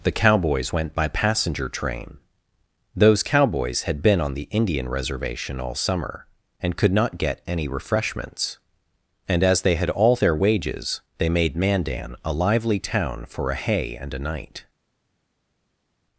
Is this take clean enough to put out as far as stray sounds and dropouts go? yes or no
yes